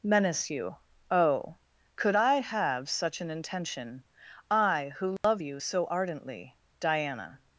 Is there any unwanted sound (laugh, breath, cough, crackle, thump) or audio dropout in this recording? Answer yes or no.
yes